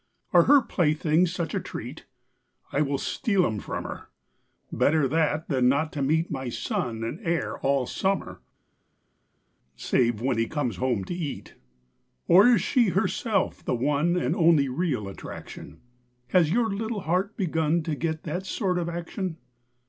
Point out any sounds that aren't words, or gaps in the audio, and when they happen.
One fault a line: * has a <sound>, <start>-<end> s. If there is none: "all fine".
all fine